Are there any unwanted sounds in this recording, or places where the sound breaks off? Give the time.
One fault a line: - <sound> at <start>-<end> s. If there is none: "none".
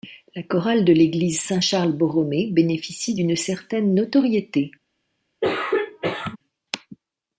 - throat clearing at 5.4-6.4 s